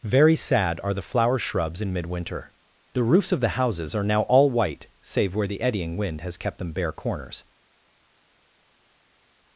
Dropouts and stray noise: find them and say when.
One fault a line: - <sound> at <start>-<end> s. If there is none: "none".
none